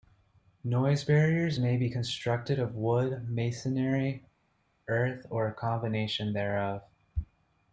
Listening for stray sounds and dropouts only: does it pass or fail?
pass